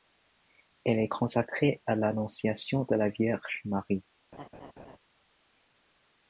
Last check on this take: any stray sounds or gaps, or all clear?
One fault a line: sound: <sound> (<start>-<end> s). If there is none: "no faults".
sound: laugh (4.3-5.0 s)